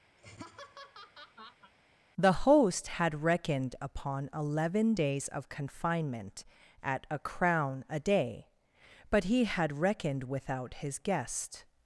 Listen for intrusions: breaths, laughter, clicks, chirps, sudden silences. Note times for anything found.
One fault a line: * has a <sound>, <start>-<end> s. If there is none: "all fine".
* has a laugh, 0.2-1.7 s